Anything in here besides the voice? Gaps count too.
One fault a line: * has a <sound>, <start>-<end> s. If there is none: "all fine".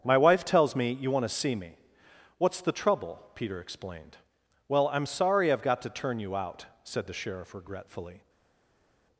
all fine